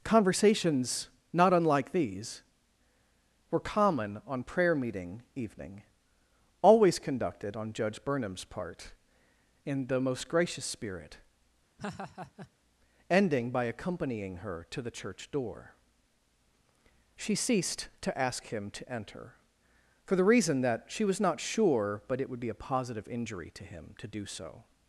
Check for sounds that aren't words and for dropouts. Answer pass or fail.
fail